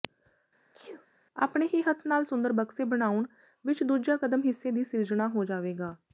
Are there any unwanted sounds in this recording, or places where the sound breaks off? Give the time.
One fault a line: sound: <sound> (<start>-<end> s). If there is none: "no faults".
sound: sneeze (0.7-1.1 s)